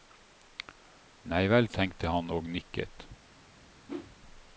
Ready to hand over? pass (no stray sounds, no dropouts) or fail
fail